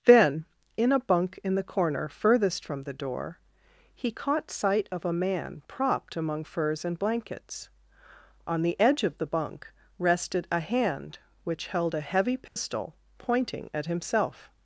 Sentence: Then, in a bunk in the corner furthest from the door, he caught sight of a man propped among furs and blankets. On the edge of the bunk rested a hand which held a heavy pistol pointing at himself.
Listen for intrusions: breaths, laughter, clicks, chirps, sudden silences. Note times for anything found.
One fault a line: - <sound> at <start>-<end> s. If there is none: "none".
- dropout at 12.5-12.6 s